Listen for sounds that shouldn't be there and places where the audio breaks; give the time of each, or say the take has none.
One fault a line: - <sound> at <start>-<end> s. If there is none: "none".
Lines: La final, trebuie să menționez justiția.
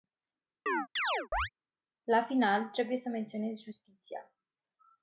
- chirp at 0.7-1.5 s